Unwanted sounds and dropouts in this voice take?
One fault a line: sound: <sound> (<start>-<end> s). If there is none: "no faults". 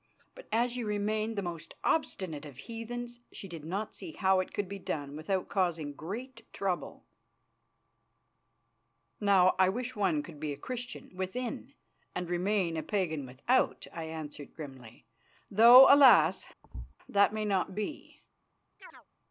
sound: thud (16.6-16.9 s)
sound: chirp (18.8-19.1 s)